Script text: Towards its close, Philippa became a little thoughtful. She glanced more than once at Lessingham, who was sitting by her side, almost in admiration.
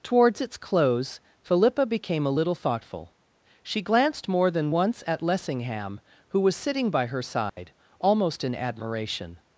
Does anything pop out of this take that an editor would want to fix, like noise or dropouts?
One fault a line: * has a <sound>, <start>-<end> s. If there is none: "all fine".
* has a dropout, 7.5-7.6 s